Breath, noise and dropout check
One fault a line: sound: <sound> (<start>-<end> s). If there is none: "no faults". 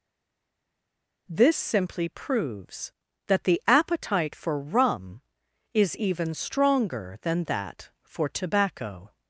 no faults